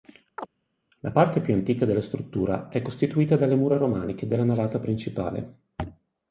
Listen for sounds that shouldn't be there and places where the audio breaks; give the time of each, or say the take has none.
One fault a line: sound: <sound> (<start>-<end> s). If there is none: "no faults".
sound: chirp (0.4-0.5 s)